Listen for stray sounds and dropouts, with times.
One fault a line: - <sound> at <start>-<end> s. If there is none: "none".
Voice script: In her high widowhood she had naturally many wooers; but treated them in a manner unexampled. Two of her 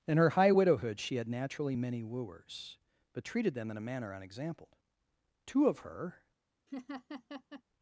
- laugh at 6.7-7.6 s